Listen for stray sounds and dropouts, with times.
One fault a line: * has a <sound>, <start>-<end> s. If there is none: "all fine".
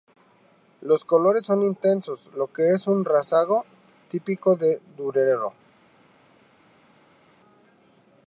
all fine